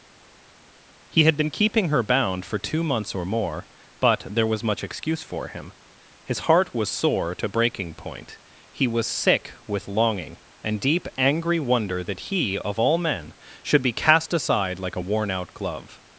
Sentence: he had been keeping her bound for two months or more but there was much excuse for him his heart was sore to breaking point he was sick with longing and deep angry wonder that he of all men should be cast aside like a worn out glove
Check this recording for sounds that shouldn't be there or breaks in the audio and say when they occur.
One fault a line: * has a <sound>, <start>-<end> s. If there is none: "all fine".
all fine